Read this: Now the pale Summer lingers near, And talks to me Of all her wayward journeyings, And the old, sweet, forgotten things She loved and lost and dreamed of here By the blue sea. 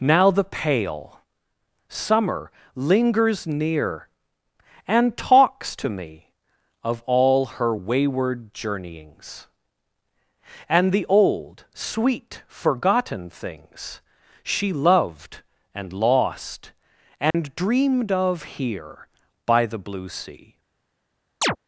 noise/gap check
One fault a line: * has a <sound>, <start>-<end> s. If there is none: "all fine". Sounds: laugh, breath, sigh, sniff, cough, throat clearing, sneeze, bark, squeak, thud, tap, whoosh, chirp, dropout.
* has a dropout, 17.3-17.3 s
* has a chirp, 21.4-21.6 s